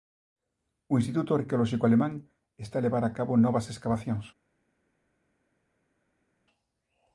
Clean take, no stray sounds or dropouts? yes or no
yes